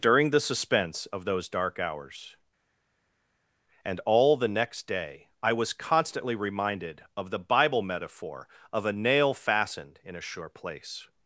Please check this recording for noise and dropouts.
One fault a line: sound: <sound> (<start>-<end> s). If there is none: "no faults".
no faults